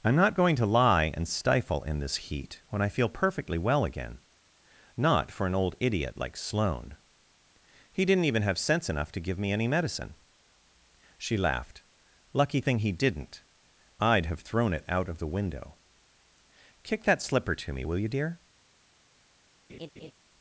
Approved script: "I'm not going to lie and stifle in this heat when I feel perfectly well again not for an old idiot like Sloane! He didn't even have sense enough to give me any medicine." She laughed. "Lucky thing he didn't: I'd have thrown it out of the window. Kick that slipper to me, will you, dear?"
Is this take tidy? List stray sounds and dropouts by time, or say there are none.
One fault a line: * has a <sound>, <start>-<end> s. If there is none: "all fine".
* has a laugh, 19.7-20.1 s